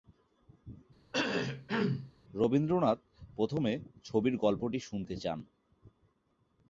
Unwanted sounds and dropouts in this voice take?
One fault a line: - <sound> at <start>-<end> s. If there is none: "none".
- cough at 1.1-2.1 s